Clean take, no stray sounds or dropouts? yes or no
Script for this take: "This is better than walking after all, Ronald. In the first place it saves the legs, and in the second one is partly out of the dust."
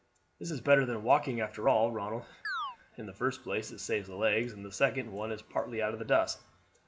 no